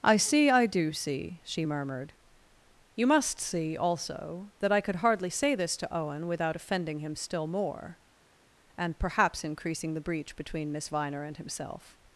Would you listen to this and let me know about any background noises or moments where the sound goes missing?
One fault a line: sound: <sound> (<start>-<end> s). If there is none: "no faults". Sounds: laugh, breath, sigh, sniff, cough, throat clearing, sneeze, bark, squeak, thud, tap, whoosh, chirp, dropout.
no faults